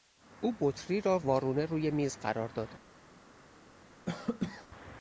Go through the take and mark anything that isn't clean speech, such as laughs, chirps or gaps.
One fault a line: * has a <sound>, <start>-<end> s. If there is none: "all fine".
* has a cough, 4.1-4.7 s